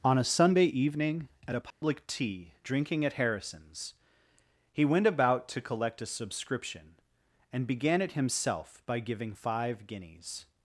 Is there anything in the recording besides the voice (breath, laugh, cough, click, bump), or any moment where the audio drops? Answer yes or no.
yes